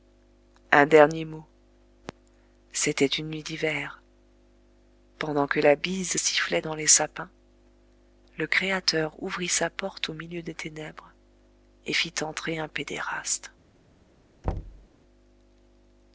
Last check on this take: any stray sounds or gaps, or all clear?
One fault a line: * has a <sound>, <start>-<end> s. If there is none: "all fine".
* has a thud, 14.4-14.9 s